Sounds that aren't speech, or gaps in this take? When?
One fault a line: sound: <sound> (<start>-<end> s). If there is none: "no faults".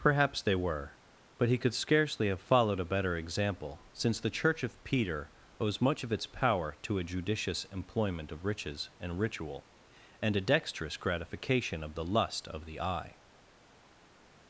no faults